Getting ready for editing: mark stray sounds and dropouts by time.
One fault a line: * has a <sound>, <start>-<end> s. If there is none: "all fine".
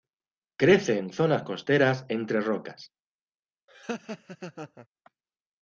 * has a laugh, 3.7-4.9 s